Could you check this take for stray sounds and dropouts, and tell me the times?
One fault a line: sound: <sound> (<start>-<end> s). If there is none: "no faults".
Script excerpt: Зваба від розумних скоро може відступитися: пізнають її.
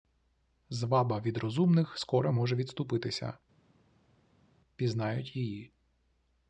no faults